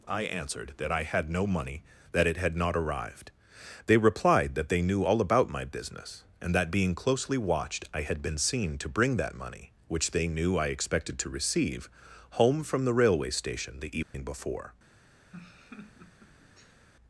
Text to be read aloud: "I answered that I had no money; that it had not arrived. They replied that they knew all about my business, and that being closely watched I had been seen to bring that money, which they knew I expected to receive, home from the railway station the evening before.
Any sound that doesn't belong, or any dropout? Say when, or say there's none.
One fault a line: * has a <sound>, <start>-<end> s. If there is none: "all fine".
* has a dropout, 14.0-14.1 s
* has a laugh, 15.3-16.8 s